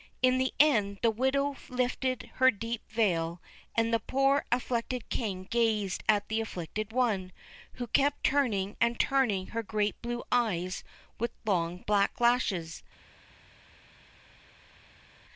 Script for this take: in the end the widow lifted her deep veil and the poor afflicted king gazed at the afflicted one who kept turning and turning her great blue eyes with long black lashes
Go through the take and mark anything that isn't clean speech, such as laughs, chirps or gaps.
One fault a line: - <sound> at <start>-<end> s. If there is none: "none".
none